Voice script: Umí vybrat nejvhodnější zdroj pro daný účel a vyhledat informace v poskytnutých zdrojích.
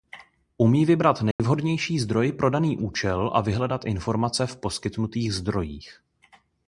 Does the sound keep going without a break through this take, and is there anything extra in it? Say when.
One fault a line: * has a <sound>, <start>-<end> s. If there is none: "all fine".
* has a dropout, 1.3-1.4 s